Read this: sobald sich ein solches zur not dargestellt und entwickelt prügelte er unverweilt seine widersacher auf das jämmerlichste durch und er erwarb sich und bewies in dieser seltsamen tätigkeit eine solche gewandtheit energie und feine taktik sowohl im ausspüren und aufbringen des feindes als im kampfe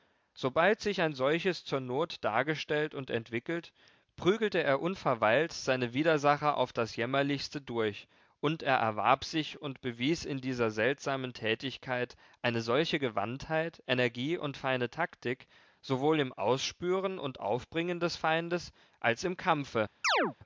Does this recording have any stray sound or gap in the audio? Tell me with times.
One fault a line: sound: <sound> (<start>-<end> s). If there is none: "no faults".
sound: chirp (20.0-20.3 s)